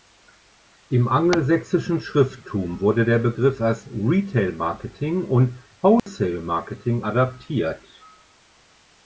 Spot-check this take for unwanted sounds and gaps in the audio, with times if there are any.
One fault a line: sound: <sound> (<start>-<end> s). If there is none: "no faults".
sound: dropout (6.0-6.1 s)